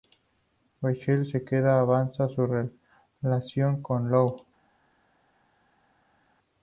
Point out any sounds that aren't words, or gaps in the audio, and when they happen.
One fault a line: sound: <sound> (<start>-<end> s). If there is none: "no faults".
no faults